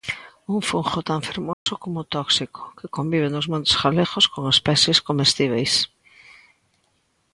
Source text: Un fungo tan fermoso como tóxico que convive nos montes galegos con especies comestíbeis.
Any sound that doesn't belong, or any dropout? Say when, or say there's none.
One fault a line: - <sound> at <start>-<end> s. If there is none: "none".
- dropout at 1.5-1.7 s